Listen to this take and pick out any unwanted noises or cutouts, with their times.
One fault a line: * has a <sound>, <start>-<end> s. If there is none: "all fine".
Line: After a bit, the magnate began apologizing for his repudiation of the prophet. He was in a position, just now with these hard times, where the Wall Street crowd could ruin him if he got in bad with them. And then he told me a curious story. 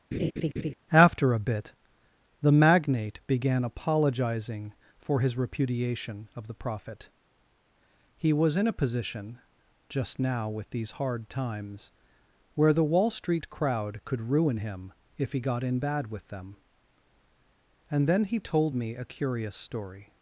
* has a laugh, 0.1-0.7 s